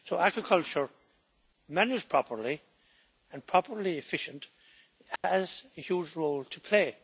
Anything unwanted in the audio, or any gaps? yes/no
yes